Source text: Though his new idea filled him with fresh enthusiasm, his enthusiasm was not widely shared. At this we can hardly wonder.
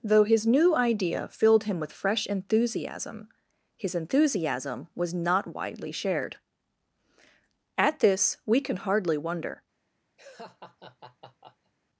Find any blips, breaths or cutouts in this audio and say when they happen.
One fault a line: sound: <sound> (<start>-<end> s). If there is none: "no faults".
sound: laugh (10.2-11.7 s)